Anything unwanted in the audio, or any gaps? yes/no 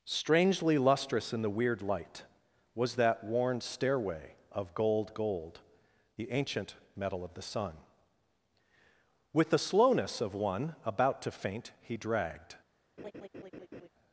yes